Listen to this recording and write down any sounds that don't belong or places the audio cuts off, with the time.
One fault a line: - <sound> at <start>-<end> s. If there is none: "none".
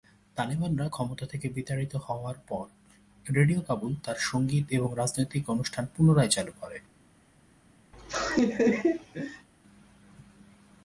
- laugh at 7.9-9.5 s